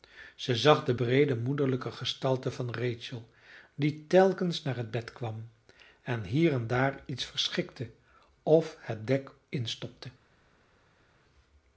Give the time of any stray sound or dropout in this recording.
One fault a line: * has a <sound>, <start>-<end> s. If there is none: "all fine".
all fine